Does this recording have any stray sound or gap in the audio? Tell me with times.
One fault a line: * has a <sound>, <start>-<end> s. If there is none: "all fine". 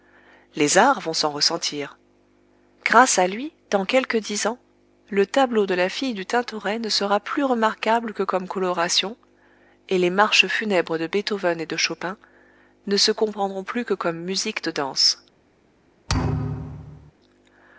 * has a thud, 16.1-17.1 s